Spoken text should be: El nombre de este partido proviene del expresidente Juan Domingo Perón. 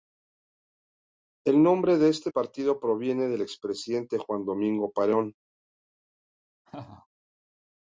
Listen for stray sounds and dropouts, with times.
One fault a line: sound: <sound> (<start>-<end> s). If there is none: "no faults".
sound: laugh (6.6-7.1 s)